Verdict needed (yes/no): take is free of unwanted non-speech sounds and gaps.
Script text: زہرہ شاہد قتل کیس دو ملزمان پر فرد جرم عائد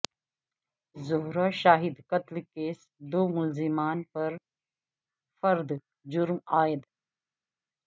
yes